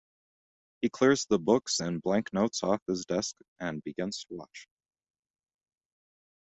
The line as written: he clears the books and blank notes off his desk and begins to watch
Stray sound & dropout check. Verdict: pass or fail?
pass